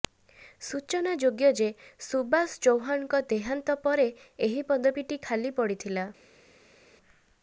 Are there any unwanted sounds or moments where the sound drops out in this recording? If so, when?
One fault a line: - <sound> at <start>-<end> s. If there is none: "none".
none